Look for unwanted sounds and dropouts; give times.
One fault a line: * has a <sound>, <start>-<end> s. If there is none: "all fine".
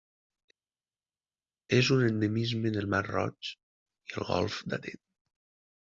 all fine